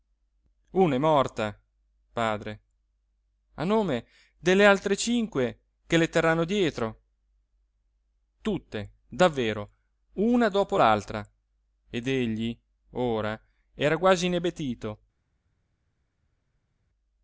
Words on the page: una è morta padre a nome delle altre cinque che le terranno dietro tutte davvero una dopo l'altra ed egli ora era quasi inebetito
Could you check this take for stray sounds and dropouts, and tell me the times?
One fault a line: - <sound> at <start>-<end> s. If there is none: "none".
none